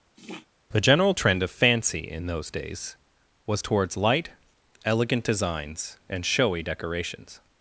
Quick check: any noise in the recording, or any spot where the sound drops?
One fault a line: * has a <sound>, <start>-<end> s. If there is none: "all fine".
* has a sniff, 0.1-0.5 s